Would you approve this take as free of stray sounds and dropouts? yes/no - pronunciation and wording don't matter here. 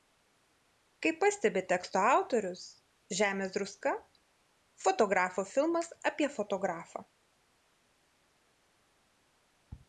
yes